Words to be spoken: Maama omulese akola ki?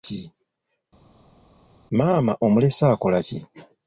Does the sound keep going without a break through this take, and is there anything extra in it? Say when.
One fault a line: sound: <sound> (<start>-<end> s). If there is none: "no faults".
no faults